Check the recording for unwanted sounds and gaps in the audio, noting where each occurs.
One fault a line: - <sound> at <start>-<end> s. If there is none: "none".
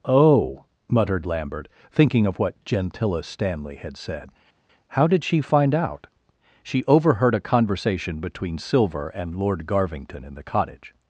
none